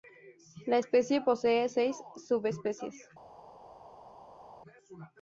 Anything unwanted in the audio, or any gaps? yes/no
no